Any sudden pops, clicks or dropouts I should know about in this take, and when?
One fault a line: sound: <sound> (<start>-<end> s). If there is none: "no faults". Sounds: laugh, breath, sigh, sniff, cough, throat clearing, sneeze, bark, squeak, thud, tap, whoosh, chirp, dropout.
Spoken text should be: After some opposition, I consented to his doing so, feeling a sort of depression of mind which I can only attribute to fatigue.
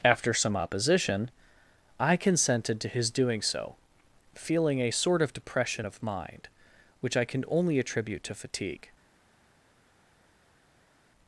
no faults